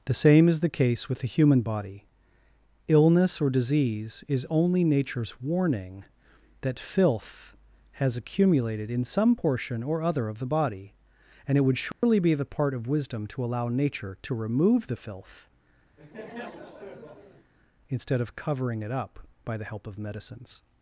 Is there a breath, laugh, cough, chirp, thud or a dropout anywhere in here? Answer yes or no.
yes